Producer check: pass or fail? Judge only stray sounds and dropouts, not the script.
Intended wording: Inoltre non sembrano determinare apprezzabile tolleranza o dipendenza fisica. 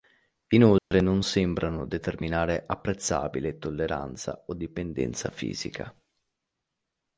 fail